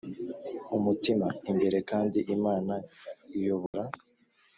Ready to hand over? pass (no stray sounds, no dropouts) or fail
fail